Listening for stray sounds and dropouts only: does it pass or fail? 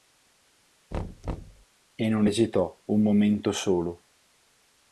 fail